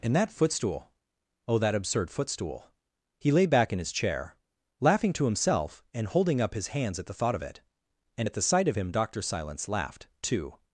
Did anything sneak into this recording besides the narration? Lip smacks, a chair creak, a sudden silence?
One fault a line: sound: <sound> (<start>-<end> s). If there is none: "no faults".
no faults